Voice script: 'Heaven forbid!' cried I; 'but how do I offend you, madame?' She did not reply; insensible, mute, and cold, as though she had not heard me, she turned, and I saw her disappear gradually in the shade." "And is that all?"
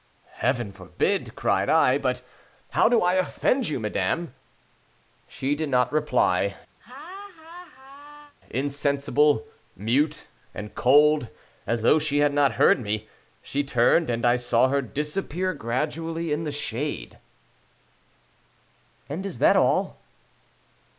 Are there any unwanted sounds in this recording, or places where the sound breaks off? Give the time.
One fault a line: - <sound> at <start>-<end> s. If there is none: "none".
- laugh at 6.8-8.3 s